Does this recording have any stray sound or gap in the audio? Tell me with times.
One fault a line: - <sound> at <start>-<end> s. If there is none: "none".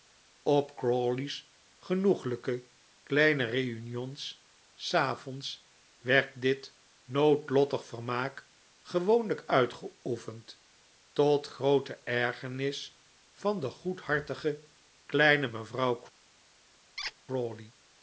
- squeak at 17.0-17.1 s